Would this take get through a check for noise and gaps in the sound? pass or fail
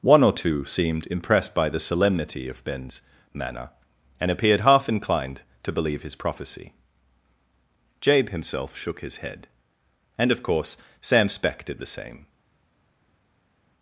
pass